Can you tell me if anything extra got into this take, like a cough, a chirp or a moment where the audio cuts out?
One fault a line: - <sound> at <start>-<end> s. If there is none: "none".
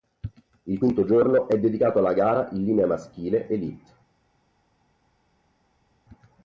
none